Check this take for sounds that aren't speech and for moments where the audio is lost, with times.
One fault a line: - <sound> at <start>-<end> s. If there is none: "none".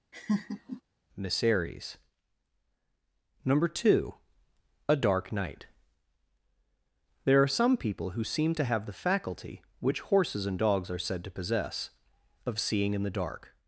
- laugh at 0.1-0.8 s